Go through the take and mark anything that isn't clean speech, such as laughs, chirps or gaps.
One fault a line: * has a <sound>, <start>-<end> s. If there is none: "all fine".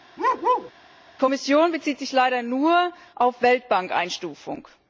* has a bark, 0.2-0.7 s